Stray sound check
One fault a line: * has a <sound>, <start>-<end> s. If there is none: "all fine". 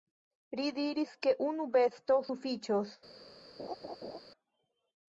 * has a laugh, 3.6-4.2 s